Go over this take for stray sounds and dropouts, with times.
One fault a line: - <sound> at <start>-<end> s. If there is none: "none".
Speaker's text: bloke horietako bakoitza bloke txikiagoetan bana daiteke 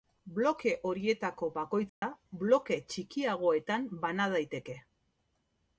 - dropout at 1.9-2.0 s